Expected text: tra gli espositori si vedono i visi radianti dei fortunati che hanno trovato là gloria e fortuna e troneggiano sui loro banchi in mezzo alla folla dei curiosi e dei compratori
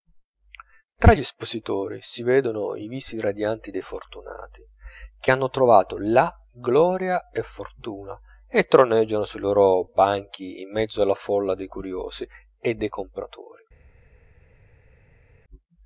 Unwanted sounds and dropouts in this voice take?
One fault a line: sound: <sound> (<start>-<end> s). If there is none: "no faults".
no faults